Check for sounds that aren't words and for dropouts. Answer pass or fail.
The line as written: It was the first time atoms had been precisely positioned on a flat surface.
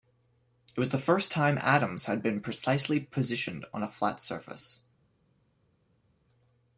pass